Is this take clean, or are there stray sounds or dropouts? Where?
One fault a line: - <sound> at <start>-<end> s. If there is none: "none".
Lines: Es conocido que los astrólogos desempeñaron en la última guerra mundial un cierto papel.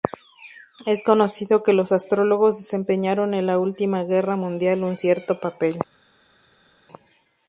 none